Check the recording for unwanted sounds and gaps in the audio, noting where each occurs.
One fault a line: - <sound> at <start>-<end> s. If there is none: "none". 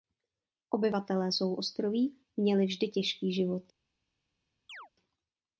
- chirp at 4.7-4.9 s